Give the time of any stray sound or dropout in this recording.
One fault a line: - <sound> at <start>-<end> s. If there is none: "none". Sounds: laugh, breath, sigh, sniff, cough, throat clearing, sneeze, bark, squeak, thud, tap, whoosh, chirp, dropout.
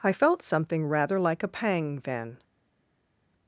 none